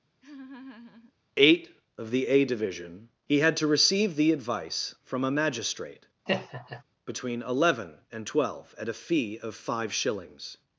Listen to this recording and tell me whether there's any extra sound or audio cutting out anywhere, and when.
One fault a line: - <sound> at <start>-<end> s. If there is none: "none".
- laugh at 0.2-1.1 s
- laugh at 6.3-6.8 s